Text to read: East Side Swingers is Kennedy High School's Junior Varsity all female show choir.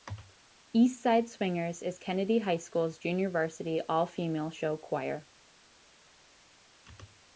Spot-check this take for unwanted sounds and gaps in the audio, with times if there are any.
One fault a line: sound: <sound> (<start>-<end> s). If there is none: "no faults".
no faults